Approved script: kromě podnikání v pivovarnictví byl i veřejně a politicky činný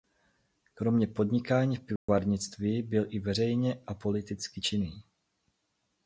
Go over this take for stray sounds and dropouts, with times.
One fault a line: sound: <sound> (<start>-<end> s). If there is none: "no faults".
sound: dropout (2.0-2.1 s)